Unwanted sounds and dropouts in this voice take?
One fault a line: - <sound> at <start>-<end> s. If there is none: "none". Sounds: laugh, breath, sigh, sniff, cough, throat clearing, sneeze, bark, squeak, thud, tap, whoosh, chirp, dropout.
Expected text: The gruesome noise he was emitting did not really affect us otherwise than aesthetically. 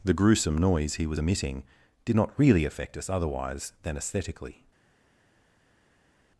none